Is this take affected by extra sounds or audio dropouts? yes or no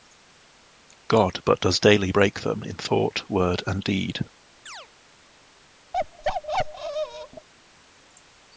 yes